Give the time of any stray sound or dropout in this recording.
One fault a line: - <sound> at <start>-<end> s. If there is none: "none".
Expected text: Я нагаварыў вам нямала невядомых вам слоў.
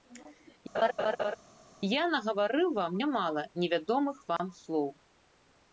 - laugh at 0.7-1.4 s
- dropout at 4.4-4.4 s